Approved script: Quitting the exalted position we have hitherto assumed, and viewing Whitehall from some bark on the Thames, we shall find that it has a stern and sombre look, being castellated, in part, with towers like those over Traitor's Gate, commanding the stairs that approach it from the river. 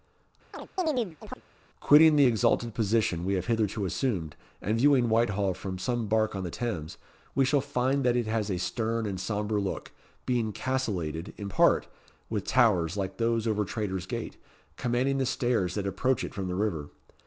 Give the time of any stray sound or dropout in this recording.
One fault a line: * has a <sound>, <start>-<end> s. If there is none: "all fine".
* has a chirp, 0.5-1.4 s